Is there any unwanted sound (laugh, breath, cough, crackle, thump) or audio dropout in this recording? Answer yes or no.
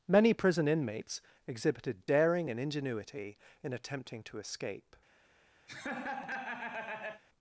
yes